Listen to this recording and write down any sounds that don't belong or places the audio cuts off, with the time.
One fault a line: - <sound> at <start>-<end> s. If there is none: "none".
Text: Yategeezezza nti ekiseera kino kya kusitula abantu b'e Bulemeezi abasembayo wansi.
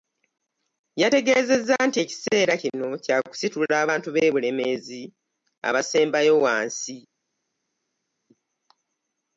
none